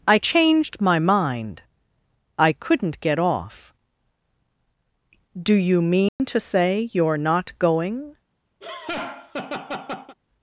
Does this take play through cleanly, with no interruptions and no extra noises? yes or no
no